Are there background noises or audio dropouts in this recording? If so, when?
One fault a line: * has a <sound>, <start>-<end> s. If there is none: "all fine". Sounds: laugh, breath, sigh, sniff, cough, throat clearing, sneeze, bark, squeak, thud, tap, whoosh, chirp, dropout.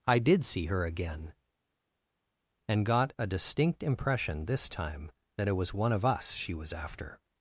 all fine